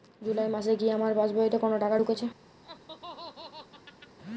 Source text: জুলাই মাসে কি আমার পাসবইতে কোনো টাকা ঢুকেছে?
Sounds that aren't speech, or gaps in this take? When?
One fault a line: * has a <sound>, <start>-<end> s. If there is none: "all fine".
* has a laugh, 2.6-4.2 s